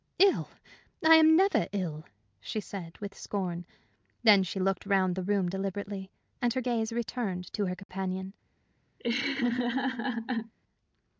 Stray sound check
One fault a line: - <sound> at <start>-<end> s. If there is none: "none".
- dropout at 7.8-7.9 s
- laugh at 9.0-10.5 s